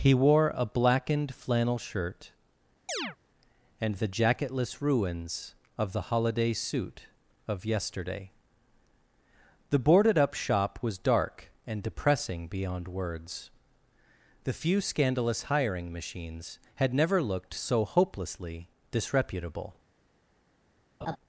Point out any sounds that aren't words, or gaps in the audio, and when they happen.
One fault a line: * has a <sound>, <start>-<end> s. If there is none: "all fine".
* has a chirp, 2.9-3.2 s
* has a laugh, 21.0-21.2 s